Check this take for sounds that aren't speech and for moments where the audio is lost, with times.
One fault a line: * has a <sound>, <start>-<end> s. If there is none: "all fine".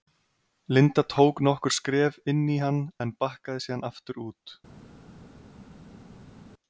all fine